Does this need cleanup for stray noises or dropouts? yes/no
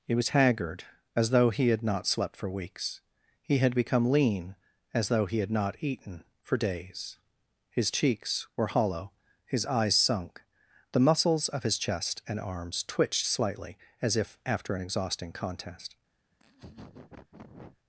yes